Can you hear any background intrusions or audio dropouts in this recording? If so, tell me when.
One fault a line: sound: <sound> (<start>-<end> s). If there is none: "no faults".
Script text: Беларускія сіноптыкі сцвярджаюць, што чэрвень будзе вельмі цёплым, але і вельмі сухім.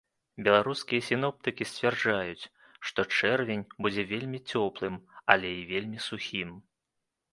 no faults